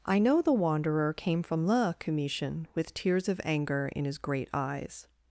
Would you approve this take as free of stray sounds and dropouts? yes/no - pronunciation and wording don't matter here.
yes